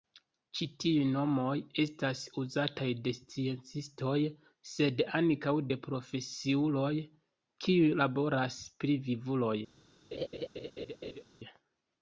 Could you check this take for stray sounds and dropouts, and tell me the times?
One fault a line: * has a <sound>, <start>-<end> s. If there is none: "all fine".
* has a laugh, 10.1-11.2 s